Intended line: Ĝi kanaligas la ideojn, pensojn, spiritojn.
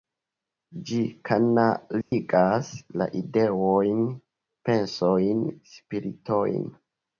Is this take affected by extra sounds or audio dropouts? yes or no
yes